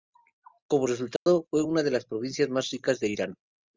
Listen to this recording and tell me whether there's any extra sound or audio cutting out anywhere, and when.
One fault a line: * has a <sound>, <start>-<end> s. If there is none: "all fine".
* has a dropout, 1.2-1.3 s